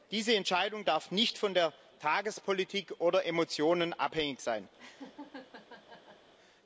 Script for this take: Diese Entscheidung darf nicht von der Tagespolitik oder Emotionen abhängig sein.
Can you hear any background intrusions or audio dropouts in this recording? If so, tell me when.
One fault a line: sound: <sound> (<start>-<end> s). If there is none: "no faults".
sound: laugh (4.8-6.3 s)